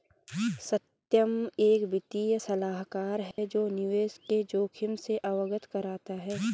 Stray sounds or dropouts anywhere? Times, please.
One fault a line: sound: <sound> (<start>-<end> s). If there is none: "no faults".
sound: dropout (3.3-3.4 s)